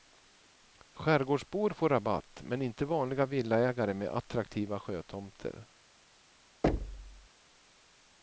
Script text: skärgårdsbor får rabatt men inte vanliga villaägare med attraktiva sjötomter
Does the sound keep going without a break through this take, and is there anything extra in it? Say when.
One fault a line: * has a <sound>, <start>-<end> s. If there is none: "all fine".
* has a thud, 6.6-7.3 s